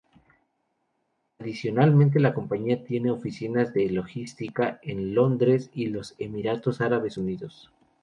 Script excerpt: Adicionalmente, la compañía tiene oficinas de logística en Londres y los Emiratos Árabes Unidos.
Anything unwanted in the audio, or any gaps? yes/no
no